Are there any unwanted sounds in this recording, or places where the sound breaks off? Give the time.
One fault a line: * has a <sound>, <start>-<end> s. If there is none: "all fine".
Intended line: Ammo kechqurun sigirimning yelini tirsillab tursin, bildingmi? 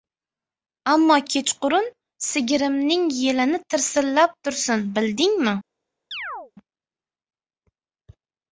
* has a chirp, 6.1-6.5 s